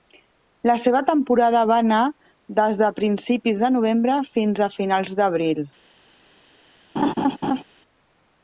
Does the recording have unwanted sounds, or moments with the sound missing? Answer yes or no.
yes